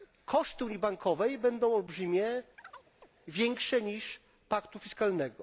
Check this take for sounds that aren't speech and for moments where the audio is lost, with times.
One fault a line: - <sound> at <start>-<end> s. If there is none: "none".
- chirp at 2.6-3.1 s